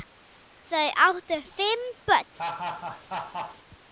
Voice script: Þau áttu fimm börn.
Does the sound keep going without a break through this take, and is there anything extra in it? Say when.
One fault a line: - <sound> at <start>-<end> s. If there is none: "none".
- laugh at 2.4-3.6 s